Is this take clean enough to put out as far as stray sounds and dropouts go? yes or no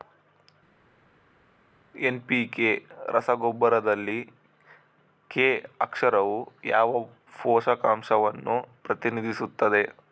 yes